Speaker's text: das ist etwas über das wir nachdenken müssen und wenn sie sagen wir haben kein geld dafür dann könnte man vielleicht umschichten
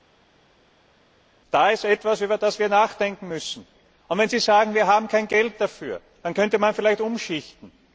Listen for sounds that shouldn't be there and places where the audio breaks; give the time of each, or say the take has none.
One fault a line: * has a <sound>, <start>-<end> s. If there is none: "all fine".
all fine